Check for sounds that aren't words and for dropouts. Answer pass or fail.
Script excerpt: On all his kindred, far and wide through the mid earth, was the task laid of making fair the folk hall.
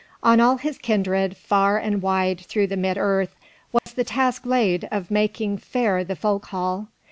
fail